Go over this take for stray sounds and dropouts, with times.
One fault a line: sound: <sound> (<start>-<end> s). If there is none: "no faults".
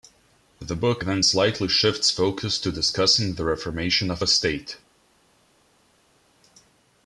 no faults